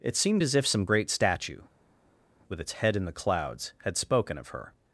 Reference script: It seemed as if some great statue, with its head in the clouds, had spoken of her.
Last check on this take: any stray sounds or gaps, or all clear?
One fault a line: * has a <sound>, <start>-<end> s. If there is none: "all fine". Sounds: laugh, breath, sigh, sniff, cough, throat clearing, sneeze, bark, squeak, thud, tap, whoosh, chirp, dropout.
all fine